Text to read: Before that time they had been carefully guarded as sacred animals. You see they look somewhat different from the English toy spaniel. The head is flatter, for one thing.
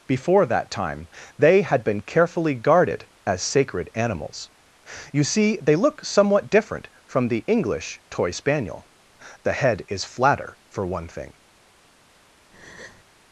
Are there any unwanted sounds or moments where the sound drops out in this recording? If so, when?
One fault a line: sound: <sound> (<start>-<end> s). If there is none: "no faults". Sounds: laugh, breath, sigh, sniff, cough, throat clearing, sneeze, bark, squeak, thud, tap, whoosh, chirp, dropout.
sound: breath (12.5-13.0 s)